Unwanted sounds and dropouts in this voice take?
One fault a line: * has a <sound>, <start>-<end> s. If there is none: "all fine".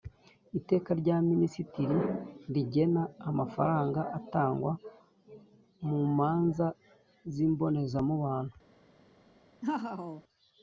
* has a laugh, 9.6-10.2 s